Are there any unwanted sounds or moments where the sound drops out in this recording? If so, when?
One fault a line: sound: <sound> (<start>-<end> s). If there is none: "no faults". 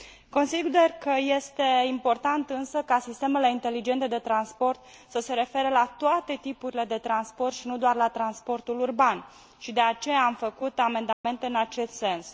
sound: dropout (11.1-11.2 s)